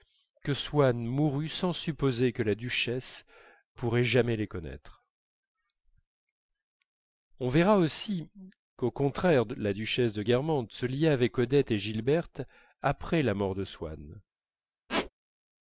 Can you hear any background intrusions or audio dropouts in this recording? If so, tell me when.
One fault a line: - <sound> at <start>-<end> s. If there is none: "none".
- squeak at 14.9-15.1 s